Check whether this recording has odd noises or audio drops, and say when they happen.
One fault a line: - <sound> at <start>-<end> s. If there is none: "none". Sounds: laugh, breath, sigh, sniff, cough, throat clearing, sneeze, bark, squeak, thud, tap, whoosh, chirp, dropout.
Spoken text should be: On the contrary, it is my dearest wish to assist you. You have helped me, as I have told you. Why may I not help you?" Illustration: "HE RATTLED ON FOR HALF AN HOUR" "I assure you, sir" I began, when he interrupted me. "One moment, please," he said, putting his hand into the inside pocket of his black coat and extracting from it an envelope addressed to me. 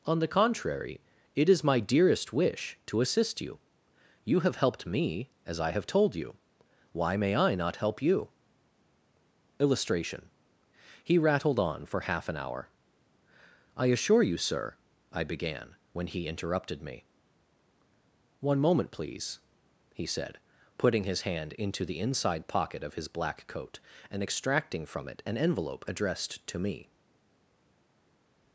none